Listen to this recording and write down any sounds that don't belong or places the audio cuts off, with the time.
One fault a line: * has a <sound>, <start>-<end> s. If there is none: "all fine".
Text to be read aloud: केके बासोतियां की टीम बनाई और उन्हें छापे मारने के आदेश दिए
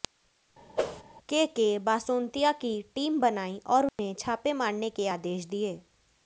* has a whoosh, 0.8-1.0 s
* has a dropout, 3.9-4.0 s